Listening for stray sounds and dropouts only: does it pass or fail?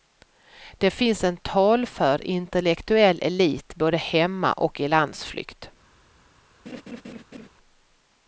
fail